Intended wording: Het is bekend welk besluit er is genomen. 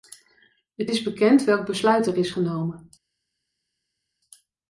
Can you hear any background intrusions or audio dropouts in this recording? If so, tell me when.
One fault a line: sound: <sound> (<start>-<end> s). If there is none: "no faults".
no faults